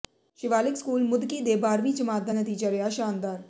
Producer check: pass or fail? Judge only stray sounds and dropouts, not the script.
pass